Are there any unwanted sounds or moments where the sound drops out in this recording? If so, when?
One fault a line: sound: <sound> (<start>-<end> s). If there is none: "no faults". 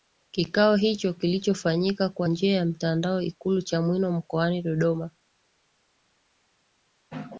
no faults